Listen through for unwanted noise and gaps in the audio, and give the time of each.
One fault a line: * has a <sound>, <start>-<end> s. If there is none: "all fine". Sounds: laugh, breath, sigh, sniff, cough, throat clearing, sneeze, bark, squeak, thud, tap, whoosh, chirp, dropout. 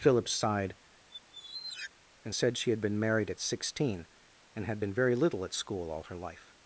* has a squeak, 1.1-1.9 s